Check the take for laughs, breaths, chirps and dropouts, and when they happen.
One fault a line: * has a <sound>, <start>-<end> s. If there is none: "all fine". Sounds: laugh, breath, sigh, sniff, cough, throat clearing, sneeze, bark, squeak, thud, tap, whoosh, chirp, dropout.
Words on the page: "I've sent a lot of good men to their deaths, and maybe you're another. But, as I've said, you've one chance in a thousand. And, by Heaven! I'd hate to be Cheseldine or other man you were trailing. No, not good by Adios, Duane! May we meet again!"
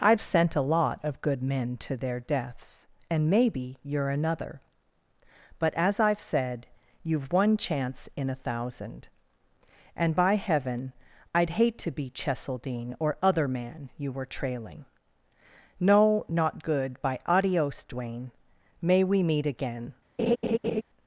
* has a laugh, 20.2-20.8 s